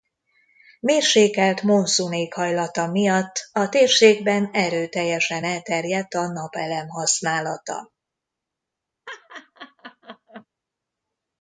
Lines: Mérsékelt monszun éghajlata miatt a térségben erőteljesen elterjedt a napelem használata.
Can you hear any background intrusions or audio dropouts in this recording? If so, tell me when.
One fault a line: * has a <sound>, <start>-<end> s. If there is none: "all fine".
* has a laugh, 9.1-10.5 s